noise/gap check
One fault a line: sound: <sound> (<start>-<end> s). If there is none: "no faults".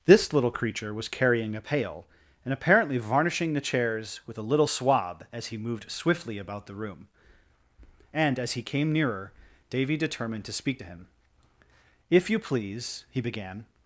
no faults